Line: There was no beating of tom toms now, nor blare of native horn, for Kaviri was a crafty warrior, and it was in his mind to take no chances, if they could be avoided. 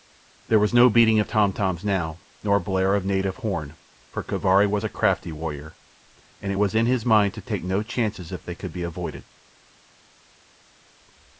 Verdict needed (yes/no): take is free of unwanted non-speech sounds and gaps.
yes